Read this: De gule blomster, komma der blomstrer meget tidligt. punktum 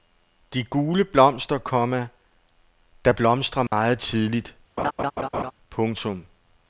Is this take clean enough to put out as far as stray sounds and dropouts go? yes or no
no